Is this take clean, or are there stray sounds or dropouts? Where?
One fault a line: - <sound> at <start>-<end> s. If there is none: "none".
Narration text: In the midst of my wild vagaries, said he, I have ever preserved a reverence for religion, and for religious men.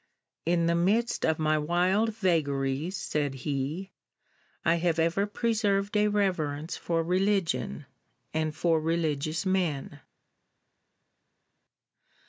none